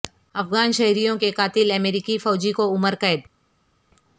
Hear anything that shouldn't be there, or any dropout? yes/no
no